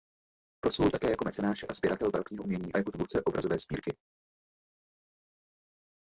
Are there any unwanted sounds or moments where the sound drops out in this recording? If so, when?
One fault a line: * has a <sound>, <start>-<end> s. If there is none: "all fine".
all fine